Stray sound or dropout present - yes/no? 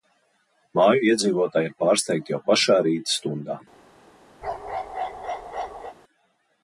yes